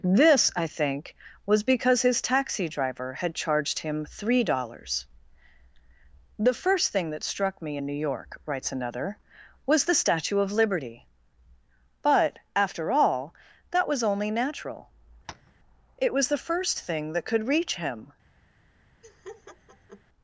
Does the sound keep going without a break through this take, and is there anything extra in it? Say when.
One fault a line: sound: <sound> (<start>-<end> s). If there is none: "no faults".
sound: tap (15.3-15.5 s)
sound: laugh (19.0-20.0 s)